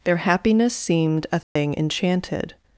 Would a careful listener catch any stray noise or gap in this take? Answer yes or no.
yes